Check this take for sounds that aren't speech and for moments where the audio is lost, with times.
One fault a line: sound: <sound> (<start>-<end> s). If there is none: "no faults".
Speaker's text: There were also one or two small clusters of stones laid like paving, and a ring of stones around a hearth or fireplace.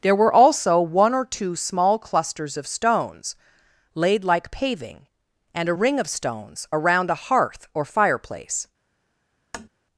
sound: tap (9.5-9.7 s)